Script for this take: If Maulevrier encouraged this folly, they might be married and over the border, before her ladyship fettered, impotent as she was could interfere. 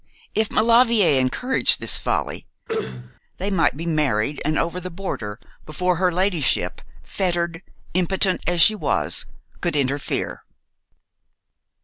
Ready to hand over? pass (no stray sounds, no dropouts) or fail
fail